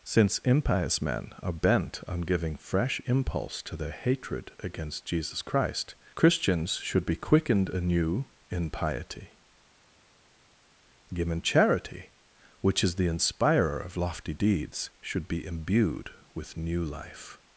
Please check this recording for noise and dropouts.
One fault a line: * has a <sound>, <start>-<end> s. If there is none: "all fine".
all fine